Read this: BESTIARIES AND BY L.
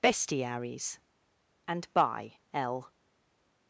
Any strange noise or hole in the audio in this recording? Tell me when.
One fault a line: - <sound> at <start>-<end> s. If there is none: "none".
none